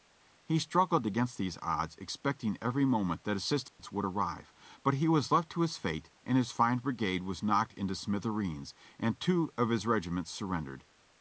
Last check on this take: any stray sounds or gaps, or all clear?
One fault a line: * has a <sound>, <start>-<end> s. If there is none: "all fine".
* has a dropout, 3.7-3.8 s